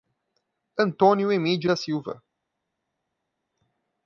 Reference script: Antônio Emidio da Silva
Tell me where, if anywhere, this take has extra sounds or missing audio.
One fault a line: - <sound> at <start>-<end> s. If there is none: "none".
none